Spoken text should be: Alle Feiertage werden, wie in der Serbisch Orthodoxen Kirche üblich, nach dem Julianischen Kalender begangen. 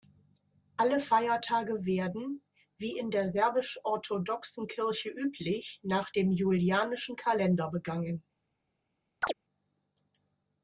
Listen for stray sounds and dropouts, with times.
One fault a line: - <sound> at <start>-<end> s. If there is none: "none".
- chirp at 9.2-9.3 s